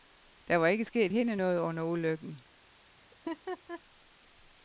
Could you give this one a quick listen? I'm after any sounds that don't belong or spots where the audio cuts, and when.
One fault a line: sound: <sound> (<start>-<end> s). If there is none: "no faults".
sound: laugh (3.1-3.8 s)